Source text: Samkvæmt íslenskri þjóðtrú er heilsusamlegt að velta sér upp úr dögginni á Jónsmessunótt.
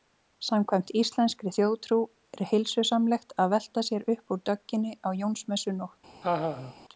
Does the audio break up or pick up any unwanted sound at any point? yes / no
yes